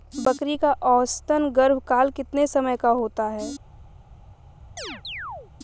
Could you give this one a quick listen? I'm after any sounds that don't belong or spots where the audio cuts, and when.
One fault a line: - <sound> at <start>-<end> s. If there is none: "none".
- chirp at 4.8-5.5 s